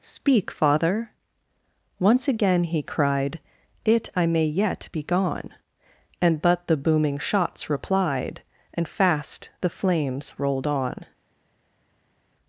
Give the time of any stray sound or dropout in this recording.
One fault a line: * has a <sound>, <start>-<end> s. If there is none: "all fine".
all fine